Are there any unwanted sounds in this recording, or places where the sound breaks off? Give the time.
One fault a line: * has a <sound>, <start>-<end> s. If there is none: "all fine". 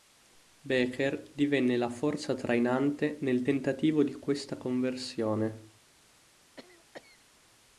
* has a cough, 6.6-7.2 s